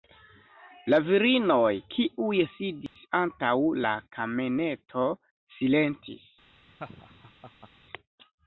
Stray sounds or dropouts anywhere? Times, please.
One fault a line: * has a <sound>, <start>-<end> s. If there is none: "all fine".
* has a dropout, 2.9-3.0 s
* has a laugh, 6.7-7.7 s